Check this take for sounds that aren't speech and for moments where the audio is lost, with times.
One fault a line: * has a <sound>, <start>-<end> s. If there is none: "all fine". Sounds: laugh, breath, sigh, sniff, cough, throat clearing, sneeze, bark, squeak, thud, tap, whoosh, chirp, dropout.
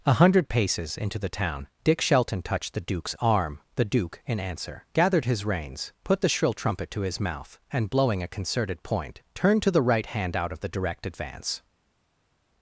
all fine